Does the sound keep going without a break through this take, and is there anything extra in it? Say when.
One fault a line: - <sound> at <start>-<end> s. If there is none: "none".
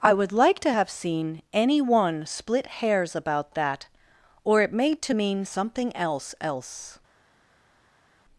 none